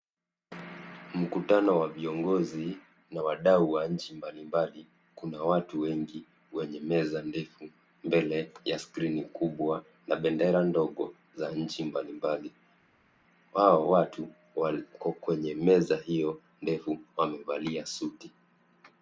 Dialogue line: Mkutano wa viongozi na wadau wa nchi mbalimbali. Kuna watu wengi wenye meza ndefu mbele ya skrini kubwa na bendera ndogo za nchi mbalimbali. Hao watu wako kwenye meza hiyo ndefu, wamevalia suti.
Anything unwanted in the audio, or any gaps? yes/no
no